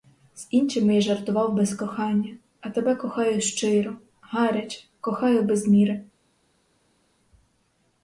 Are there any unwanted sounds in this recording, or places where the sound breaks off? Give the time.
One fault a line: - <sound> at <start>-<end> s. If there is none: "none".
none